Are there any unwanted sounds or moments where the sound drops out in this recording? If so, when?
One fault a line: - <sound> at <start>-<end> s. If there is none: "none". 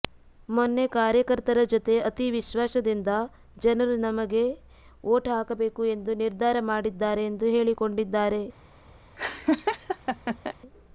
- laugh at 9.2-10.5 s